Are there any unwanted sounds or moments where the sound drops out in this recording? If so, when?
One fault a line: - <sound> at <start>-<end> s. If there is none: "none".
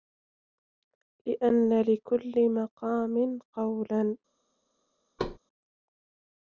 - thud at 5.2-5.4 s